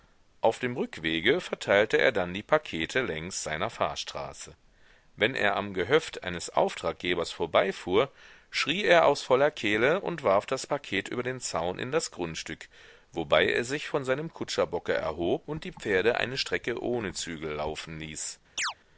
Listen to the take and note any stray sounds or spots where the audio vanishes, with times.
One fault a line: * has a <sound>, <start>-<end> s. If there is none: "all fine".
* has a chirp, 18.6-18.7 s